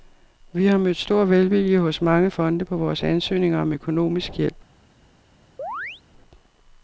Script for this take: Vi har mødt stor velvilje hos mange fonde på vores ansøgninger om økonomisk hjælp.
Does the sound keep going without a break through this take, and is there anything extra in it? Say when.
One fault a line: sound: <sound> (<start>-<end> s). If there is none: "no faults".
sound: chirp (5.6-6.0 s)